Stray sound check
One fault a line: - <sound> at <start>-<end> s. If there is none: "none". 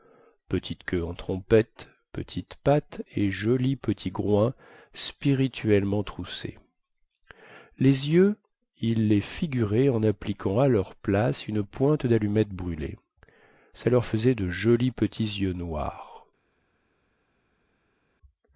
none